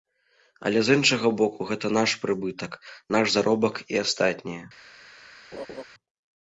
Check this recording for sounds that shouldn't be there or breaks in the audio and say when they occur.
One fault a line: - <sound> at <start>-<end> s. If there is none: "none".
- laugh at 5.5-5.8 s